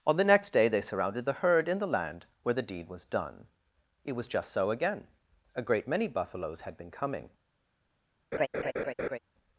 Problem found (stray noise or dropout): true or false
true